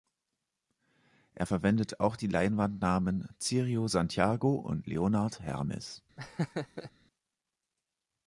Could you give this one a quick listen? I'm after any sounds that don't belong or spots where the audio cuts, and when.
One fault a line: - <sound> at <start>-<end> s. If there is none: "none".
- laugh at 6.2-6.9 s